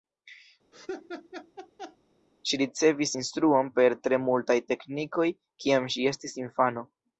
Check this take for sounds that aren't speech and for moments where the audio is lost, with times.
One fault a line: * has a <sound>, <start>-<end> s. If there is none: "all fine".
* has a laugh, 0.7-2.0 s